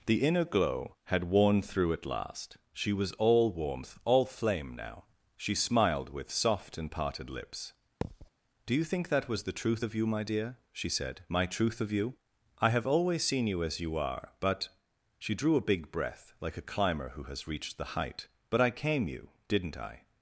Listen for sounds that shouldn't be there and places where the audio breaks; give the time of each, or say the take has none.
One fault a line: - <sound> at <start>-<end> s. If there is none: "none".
- thud at 8.0-8.3 s